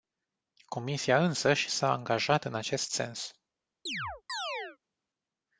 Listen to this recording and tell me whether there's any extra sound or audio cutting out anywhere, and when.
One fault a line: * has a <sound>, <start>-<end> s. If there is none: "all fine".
* has a chirp, 3.9-4.8 s